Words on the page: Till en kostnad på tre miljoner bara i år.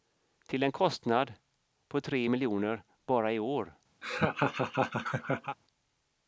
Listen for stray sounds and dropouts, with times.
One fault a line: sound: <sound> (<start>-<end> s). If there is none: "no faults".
sound: laugh (4.0-5.6 s)